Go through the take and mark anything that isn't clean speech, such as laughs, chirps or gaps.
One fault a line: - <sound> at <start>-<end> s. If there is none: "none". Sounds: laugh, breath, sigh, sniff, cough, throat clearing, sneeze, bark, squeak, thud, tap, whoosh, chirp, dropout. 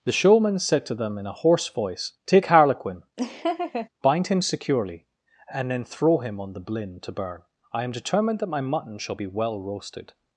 - laugh at 3.2-3.9 s